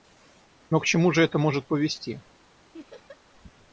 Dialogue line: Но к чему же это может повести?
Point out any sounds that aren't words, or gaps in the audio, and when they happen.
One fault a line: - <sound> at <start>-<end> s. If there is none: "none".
- laugh at 2.7-3.2 s